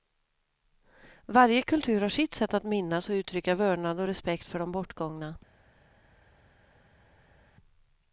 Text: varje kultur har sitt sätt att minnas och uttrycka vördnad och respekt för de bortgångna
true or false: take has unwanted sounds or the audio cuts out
false